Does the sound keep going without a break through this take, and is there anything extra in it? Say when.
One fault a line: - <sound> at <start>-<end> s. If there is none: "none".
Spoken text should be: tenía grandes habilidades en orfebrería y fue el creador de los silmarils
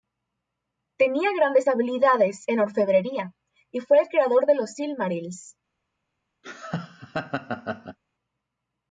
- laugh at 6.4-8.0 s